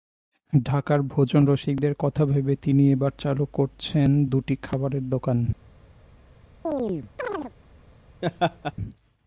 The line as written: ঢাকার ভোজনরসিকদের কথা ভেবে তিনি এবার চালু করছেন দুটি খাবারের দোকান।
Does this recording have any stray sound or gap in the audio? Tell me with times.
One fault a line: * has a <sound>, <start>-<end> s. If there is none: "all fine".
* has a chirp, 6.6-7.5 s
* has a laugh, 8.2-8.7 s